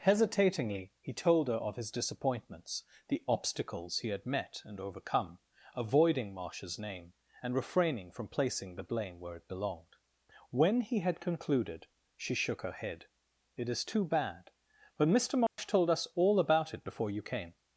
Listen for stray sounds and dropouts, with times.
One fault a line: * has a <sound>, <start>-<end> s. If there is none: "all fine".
* has a dropout, 15.5-15.6 s